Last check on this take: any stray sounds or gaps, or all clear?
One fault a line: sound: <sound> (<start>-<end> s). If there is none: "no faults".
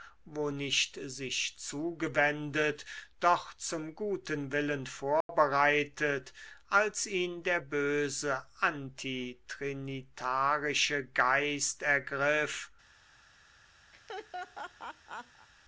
sound: dropout (5.2-5.3 s)
sound: laugh (13.9-15.5 s)